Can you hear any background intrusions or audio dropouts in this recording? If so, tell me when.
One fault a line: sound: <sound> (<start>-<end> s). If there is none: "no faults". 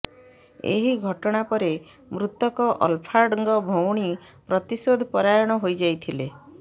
no faults